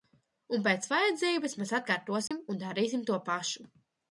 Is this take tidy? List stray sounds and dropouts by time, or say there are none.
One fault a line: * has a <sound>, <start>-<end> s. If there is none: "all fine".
* has a dropout, 2.3-2.3 s